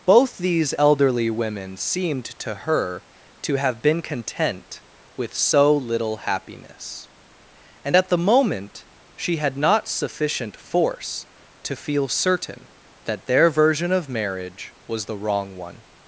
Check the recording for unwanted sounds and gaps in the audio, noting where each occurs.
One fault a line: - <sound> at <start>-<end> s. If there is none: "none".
none